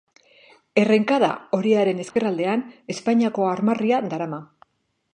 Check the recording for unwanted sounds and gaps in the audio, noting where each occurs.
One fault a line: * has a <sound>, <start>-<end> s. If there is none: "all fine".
* has a dropout, 2.1-2.2 s